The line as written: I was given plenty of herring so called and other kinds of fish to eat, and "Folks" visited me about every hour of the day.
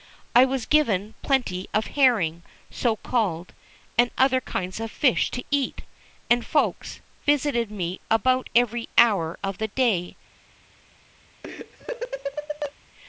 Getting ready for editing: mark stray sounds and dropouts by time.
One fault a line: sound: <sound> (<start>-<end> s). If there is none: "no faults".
sound: laugh (11.4-12.7 s)